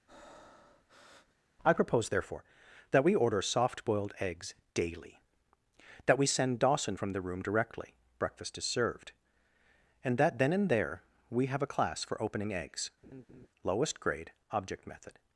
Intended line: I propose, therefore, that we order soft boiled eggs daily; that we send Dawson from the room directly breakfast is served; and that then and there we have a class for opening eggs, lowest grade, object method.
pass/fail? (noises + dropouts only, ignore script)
fail